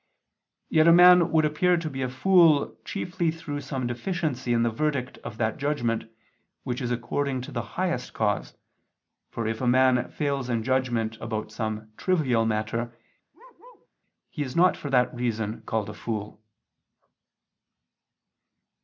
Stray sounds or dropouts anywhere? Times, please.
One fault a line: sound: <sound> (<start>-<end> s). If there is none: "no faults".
sound: bark (13.3-13.9 s)